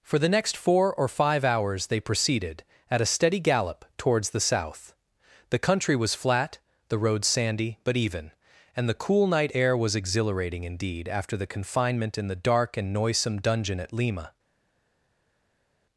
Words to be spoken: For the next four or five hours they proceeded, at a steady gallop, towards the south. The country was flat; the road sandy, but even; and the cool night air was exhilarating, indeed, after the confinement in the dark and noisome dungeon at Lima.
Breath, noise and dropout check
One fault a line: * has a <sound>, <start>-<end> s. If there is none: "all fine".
all fine